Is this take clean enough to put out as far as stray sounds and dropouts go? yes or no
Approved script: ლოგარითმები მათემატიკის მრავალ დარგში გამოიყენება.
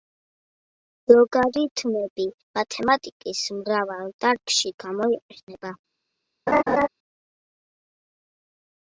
no